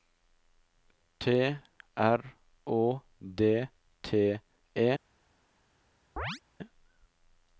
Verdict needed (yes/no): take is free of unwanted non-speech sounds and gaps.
no